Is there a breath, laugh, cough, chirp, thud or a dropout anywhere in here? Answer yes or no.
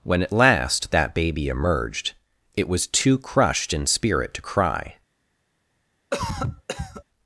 yes